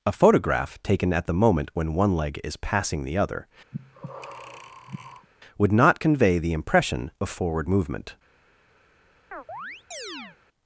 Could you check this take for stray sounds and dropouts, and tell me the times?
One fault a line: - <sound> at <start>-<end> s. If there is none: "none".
- breath at 3.7-5.3 s
- chirp at 9.3-10.4 s